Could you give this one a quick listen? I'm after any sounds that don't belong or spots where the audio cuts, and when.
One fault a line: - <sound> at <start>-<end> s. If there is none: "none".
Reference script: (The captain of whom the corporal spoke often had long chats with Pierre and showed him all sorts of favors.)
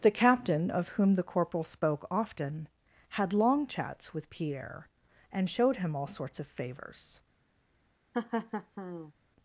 - laugh at 8.1-9.1 s